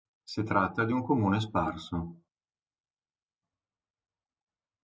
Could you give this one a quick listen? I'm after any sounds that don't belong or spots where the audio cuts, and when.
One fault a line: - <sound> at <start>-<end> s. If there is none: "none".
none